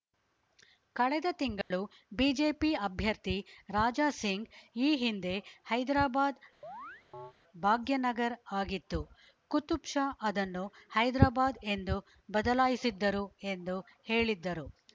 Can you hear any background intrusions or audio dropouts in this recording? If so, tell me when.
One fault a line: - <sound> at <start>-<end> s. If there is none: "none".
- dropout at 1.6-1.7 s
- chirp at 6.6-7.3 s